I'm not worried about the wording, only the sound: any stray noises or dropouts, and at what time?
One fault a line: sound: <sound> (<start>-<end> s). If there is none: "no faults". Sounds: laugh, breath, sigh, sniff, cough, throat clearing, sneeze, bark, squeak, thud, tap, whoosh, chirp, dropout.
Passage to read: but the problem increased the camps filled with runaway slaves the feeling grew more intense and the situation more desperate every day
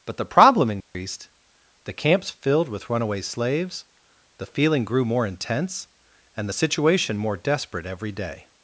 sound: dropout (0.8-0.9 s)